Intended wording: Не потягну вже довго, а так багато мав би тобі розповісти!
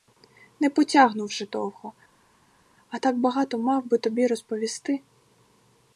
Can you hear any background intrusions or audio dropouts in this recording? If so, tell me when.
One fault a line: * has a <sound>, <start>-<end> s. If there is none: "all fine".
all fine